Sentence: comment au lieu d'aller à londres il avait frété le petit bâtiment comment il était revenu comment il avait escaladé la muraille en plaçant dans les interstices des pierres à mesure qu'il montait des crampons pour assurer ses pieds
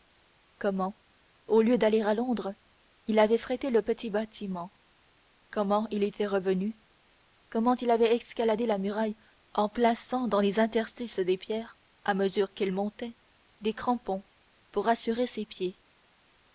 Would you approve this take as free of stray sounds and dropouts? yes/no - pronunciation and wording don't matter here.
yes